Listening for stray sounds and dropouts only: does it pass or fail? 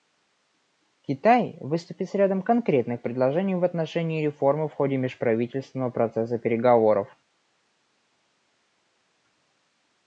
pass